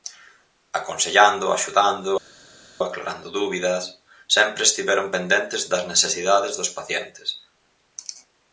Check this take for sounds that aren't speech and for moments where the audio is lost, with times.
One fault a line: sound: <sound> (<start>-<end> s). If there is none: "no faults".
no faults